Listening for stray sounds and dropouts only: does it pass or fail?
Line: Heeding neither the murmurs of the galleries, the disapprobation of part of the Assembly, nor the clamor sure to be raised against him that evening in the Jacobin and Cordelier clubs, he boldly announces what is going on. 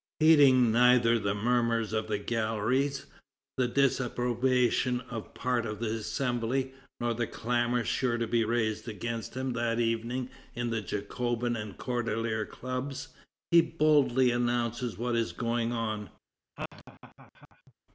fail